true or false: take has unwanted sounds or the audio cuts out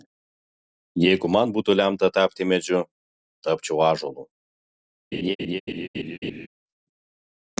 true